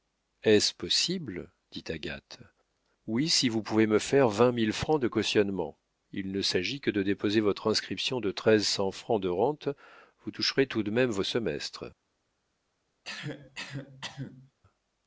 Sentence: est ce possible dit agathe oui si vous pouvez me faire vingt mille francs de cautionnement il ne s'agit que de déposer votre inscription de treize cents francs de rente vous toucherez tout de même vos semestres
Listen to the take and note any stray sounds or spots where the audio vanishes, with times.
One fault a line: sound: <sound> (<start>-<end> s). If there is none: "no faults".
sound: cough (13.0-14.5 s)